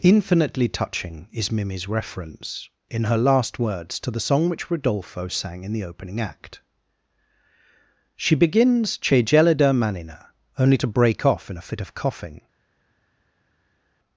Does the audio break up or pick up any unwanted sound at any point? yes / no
no